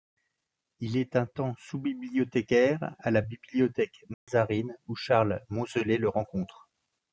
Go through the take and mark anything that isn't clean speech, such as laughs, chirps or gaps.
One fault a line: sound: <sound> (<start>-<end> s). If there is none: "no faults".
sound: dropout (4.1-4.3 s)